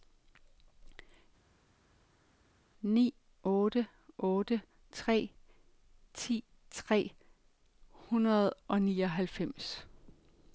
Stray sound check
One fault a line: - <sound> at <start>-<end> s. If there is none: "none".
none